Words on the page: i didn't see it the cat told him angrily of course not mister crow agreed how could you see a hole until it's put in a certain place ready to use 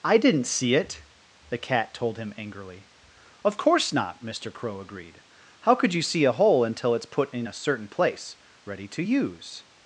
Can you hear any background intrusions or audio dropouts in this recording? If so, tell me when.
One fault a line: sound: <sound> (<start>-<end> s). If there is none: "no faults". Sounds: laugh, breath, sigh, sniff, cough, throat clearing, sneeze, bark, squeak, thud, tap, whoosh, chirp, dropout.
no faults